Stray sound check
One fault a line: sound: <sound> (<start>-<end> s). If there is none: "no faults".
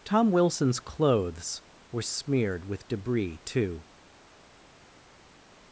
no faults